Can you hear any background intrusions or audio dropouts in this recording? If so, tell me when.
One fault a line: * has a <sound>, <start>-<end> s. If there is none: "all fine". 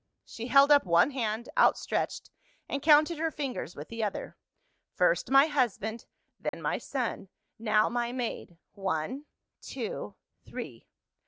* has a dropout, 6.5-6.5 s